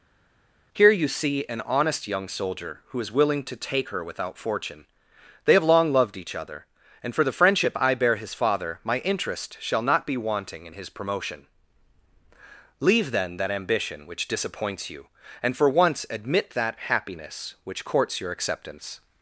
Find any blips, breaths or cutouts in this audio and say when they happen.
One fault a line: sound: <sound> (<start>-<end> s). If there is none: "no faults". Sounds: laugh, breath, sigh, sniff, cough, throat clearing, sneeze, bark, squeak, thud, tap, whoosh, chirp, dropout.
no faults